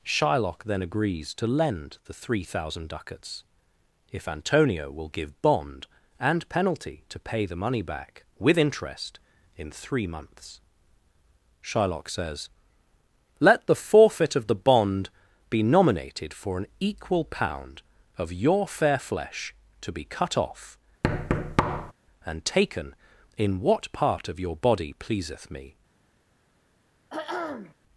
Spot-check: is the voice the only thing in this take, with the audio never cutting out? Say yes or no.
no